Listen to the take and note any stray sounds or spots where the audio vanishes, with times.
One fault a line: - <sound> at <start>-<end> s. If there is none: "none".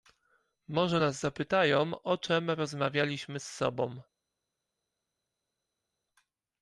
none